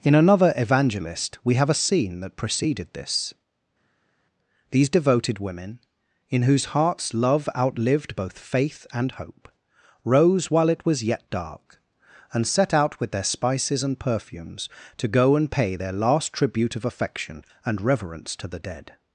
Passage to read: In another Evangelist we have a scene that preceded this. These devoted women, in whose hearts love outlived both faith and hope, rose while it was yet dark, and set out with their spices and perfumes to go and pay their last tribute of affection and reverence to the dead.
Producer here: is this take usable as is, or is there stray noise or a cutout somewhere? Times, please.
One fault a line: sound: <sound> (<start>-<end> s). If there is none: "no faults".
no faults